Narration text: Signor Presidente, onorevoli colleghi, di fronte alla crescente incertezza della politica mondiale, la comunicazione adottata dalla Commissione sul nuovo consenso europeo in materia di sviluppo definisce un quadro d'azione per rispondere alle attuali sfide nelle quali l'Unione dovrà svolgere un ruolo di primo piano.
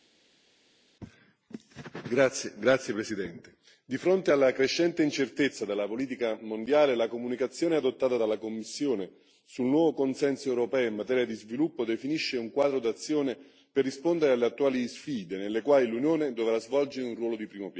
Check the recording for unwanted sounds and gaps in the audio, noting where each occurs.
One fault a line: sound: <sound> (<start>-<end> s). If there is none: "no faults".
no faults